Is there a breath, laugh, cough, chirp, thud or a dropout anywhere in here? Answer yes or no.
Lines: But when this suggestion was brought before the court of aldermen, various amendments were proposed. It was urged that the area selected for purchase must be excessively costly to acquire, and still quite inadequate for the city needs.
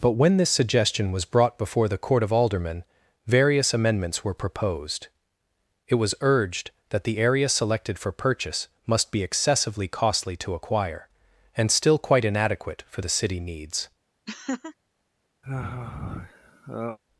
yes